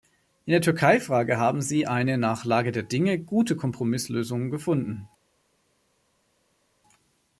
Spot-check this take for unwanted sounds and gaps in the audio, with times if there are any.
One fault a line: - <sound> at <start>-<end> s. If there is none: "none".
none